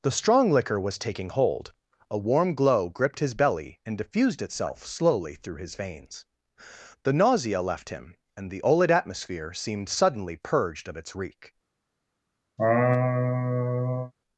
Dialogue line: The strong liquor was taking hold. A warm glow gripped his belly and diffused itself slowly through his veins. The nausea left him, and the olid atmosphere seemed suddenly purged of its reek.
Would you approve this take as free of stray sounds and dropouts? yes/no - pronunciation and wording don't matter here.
no